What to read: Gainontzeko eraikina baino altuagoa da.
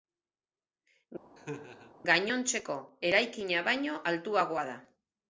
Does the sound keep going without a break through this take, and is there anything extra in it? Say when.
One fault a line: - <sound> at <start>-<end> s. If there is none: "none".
- laugh at 1.4-1.9 s